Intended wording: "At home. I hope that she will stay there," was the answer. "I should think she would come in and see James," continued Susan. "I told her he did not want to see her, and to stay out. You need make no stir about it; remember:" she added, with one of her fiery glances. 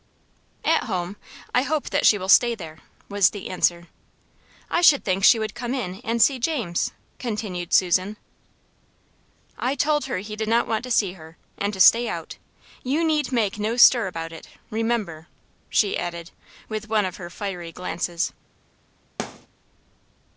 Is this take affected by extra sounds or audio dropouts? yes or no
yes